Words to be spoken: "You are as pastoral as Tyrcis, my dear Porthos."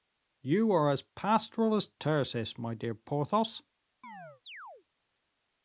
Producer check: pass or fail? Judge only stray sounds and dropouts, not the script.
fail